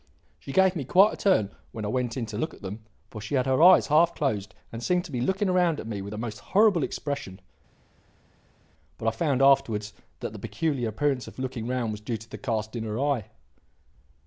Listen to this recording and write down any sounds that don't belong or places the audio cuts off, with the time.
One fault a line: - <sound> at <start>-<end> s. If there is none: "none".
none